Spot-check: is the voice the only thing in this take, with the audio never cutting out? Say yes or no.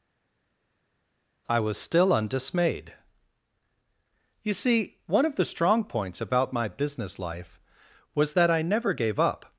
yes